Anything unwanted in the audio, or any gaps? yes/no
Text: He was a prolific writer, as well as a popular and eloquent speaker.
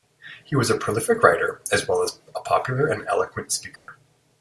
yes